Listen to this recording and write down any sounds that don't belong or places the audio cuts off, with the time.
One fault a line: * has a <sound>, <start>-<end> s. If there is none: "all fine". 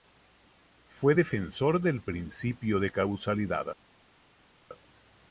all fine